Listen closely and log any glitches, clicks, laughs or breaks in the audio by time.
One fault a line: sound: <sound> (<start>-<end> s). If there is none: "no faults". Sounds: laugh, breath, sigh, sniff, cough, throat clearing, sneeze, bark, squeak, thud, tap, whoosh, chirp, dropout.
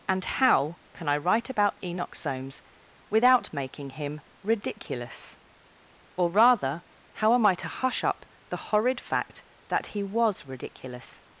no faults